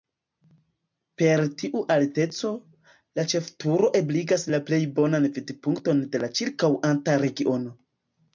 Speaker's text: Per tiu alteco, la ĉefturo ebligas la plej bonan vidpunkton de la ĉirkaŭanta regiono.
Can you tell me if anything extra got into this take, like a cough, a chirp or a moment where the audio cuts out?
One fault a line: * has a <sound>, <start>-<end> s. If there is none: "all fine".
all fine